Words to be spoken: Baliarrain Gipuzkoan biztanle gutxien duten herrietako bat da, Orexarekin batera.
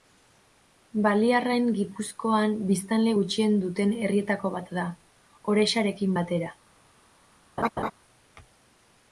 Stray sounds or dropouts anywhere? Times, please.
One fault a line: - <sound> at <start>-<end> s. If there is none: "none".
- laugh at 7.6-7.9 s